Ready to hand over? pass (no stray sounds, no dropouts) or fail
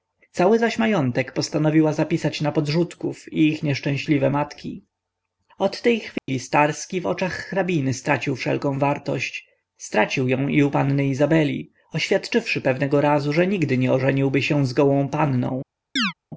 fail